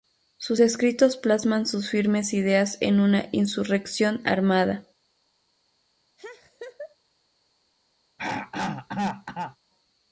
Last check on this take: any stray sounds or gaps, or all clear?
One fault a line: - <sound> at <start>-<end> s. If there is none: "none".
- laugh at 6.2-7.0 s
- throat clearing at 8.2-9.6 s